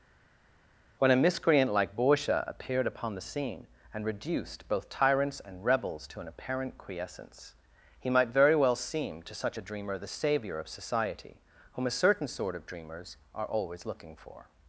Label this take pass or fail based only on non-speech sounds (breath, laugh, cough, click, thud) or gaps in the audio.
pass